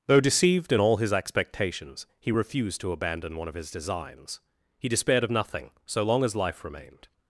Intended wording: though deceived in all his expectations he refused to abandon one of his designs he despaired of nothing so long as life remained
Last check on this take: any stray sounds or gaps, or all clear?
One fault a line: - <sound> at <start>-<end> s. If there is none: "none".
none